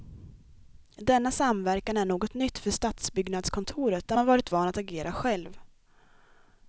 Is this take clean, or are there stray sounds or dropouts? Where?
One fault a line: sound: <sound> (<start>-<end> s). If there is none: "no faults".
no faults